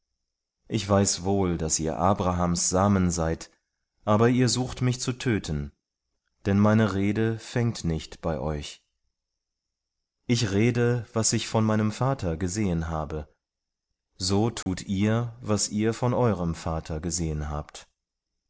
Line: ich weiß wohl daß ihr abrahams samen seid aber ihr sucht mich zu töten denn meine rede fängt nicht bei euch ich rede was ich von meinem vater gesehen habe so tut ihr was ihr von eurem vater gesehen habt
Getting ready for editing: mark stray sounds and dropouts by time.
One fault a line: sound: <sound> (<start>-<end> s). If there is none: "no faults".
sound: dropout (14.6-14.7 s)